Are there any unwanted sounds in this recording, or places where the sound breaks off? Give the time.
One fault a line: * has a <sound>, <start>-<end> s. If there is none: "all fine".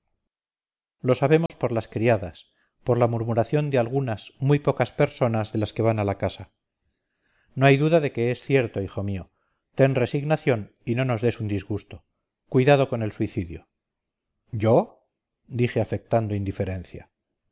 * has a dropout, 1.5-1.5 s